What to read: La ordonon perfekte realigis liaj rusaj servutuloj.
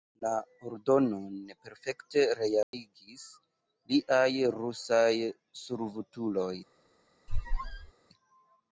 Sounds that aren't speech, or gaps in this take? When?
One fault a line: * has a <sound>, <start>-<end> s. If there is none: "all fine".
* has a dropout, 2.6-2.7 s
* has a squeak, 7.3-7.9 s